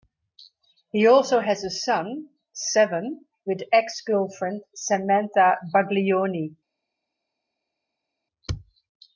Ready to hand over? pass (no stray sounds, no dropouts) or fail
pass